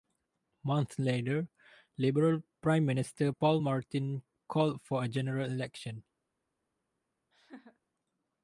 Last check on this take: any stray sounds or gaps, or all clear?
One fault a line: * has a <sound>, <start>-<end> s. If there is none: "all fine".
* has a laugh, 7.3-7.8 s